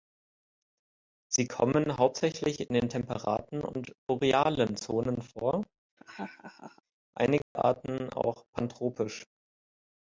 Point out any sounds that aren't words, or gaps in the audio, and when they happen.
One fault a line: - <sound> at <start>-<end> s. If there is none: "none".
- laugh at 6.0-6.8 s
- dropout at 7.4-7.6 s